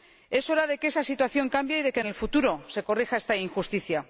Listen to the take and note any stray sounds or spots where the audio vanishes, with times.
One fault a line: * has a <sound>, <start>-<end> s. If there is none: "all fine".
all fine